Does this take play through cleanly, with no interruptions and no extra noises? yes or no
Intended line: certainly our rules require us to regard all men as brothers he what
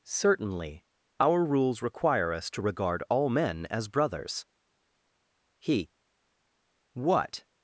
yes